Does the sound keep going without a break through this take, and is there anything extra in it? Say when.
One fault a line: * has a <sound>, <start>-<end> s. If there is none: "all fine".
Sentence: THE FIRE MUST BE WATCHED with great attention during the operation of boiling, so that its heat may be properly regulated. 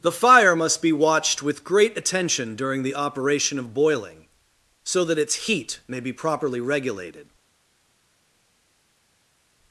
all fine